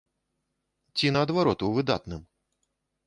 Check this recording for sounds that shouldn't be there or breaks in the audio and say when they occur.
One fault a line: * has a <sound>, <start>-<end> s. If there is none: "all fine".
all fine